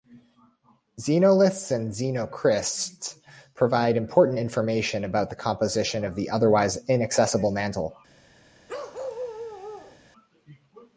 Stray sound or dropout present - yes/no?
yes